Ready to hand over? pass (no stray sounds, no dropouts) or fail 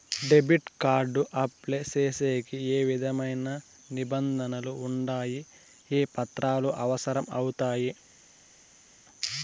pass